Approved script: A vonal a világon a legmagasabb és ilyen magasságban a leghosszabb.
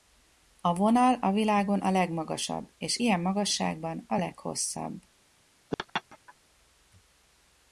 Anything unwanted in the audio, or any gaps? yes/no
yes